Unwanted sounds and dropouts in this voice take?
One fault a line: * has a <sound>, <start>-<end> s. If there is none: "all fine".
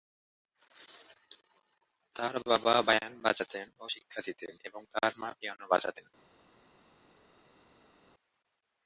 all fine